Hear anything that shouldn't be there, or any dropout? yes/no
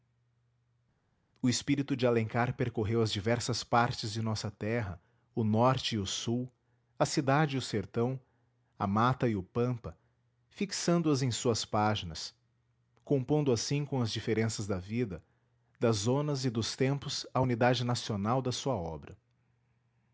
no